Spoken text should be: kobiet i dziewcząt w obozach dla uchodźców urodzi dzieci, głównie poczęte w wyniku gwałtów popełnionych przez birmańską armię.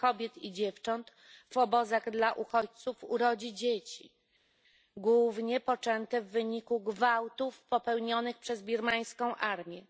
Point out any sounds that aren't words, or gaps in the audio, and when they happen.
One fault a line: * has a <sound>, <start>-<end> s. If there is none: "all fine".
all fine